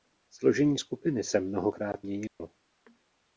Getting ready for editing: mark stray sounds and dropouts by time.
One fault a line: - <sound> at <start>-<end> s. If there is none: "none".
- dropout at 2.3-2.4 s